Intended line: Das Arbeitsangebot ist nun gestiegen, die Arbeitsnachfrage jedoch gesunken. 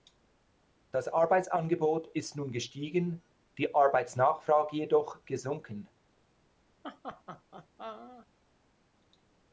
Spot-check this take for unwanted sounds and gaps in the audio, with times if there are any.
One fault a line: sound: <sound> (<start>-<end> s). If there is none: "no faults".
sound: laugh (6.8-8.3 s)